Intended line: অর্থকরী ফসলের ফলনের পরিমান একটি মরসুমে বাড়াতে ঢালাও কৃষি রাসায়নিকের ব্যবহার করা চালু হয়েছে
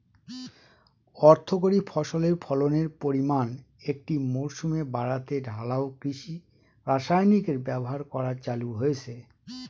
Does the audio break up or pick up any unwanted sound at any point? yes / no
no